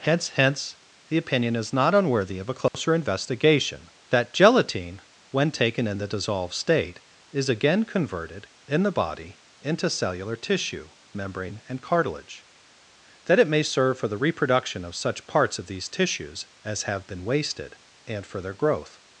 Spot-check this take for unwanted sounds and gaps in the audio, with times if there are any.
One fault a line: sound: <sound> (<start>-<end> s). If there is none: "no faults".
sound: dropout (2.7-2.7 s)